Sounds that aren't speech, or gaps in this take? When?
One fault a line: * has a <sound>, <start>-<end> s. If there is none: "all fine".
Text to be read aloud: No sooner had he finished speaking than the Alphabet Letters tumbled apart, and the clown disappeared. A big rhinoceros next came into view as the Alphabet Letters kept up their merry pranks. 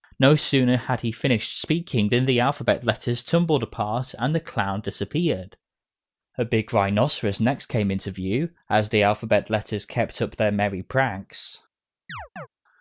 * has a chirp, 12.1-12.5 s